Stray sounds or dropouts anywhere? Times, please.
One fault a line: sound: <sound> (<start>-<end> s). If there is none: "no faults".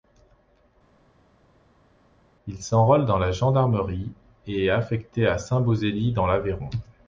no faults